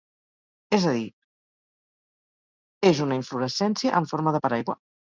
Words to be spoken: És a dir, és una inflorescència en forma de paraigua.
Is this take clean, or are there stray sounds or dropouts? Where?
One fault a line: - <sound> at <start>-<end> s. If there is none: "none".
none